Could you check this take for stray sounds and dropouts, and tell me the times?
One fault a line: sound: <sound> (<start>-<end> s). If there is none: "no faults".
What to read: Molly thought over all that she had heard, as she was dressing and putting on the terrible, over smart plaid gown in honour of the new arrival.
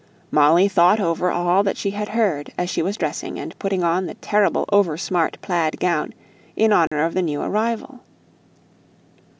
sound: dropout (6.9-6.9 s)